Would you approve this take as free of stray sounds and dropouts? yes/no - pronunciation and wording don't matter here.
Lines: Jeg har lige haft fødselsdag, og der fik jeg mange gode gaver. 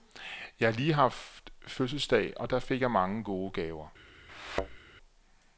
no